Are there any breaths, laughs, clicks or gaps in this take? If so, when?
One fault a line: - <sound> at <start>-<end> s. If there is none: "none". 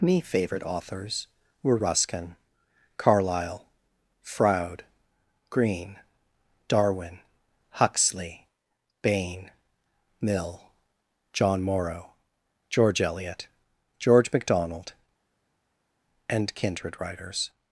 none